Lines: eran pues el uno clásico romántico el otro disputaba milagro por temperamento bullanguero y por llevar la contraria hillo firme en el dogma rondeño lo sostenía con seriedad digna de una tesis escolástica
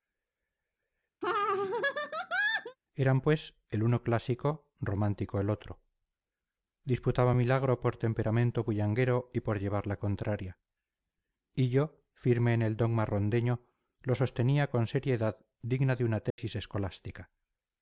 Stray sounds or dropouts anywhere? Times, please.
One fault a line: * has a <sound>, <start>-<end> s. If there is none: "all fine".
* has a laugh, 1.2-2.8 s
* has a dropout, 16.3-16.4 s